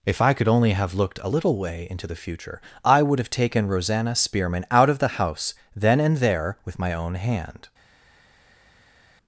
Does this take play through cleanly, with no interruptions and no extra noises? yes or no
yes